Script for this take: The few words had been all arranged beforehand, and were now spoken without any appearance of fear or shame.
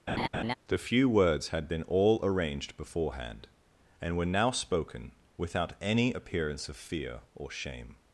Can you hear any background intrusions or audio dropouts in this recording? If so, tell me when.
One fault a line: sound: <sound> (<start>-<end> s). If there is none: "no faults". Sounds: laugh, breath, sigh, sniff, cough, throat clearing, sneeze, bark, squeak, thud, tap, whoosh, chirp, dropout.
sound: laugh (0.1-0.5 s)